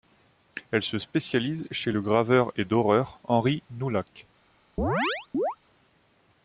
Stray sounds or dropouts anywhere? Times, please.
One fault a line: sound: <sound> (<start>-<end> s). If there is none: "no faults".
sound: chirp (4.8-5.6 s)